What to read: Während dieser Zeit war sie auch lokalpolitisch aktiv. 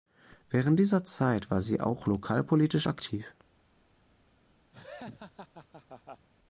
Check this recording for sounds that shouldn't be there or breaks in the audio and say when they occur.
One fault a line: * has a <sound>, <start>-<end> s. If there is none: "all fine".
* has a laugh, 4.7-6.3 s